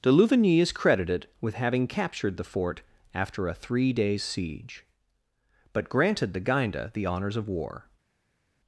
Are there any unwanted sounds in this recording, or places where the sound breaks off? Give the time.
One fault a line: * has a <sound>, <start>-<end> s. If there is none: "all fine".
all fine